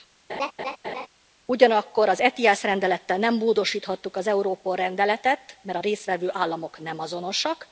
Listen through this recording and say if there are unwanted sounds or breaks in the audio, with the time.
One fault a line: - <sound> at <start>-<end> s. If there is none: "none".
- laugh at 0.3-1.1 s